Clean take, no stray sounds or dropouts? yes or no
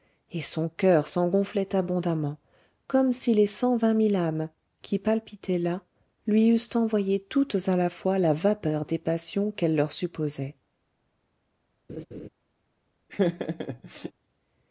no